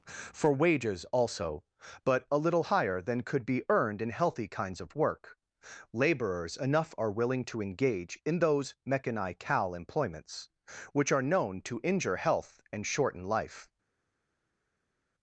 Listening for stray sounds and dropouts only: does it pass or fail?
pass